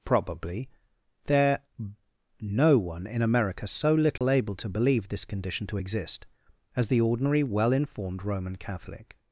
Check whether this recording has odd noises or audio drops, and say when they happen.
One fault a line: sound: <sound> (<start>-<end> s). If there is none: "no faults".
sound: dropout (4.2-4.2 s)